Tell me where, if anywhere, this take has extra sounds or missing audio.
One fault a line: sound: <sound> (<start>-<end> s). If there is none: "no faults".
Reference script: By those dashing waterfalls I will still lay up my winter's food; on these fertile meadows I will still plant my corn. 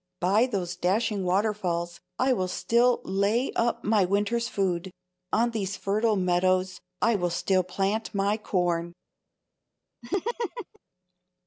sound: laugh (10.0-10.8 s)